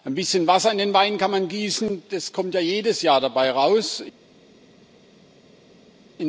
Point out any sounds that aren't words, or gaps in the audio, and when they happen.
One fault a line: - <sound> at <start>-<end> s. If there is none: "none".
none